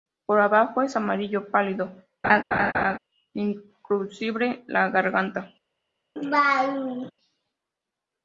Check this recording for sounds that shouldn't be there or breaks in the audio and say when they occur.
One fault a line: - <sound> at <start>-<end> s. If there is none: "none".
- laugh at 2.2-3.0 s
- laugh at 6.2-7.1 s